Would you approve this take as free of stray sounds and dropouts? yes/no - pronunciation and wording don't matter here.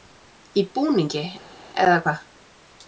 yes